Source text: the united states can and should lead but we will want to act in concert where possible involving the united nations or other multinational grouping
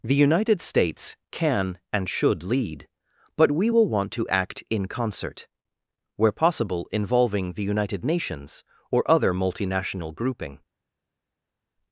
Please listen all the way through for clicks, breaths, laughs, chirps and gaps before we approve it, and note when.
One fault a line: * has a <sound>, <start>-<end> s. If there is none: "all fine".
all fine